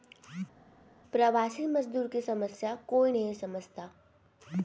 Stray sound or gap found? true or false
false